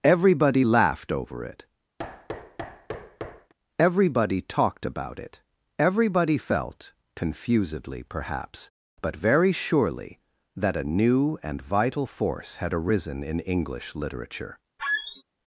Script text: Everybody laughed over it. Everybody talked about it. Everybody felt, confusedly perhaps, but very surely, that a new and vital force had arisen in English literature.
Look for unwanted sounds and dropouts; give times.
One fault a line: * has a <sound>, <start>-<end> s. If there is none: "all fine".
* has a thud, 2.0-3.5 s
* has a squeak, 14.8-15.2 s